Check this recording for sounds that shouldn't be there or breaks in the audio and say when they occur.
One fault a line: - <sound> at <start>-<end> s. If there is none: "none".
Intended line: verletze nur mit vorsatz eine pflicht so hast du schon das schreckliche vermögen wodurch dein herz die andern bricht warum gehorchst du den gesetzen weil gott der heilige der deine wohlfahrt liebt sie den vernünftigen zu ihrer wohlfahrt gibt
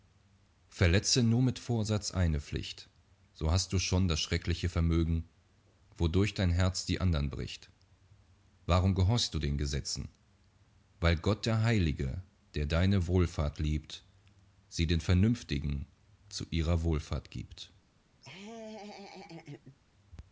- laugh at 18.2-19.8 s